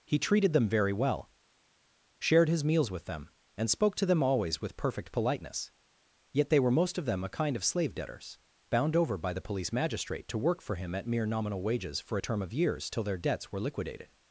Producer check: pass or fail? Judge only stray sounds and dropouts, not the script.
pass